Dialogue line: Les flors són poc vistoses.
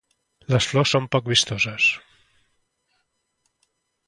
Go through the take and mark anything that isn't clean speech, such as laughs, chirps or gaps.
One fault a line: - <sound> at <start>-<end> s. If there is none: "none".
none